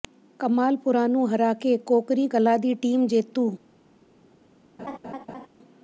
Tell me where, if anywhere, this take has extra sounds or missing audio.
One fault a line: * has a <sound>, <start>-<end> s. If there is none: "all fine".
* has a laugh, 4.8-5.5 s